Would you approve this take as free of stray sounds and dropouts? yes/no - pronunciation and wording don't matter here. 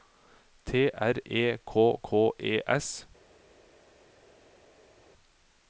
yes